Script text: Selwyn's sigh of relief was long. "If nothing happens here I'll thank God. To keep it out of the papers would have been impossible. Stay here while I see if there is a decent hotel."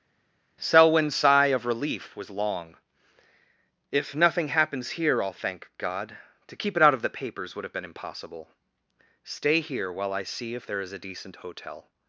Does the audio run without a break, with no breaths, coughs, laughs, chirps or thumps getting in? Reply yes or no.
yes